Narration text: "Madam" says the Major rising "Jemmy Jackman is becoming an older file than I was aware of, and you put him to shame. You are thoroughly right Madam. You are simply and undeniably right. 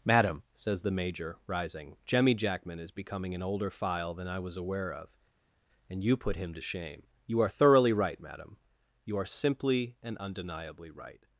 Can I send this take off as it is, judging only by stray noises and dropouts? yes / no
yes